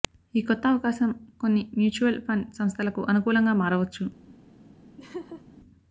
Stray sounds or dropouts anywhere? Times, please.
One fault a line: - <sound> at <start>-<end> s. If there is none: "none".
- laugh at 5.0-5.4 s